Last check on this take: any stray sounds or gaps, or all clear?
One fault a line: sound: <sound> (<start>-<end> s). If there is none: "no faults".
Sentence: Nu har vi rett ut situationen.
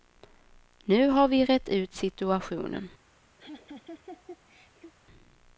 sound: laugh (3.4-4.9 s)